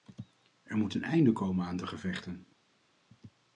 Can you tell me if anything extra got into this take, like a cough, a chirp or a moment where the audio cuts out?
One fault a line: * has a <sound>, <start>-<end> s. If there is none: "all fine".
all fine